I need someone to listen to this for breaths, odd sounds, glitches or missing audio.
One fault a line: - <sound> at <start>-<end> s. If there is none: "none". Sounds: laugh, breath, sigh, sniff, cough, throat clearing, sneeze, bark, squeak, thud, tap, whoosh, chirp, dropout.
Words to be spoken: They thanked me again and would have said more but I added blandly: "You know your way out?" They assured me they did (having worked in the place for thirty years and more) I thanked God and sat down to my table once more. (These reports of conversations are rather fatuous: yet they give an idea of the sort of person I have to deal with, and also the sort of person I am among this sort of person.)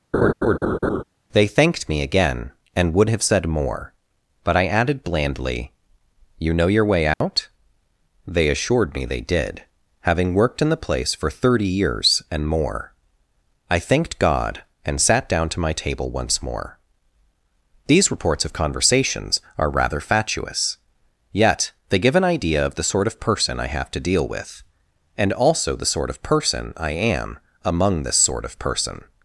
- laugh at 0.1-1.0 s
- dropout at 7.1-7.2 s